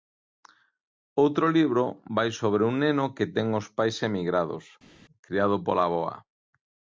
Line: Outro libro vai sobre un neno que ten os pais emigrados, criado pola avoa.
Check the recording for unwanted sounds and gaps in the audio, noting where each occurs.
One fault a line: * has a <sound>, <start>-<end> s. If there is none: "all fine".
all fine